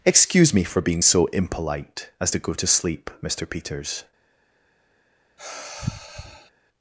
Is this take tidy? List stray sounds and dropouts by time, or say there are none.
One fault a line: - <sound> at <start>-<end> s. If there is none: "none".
- sigh at 5.4-6.5 s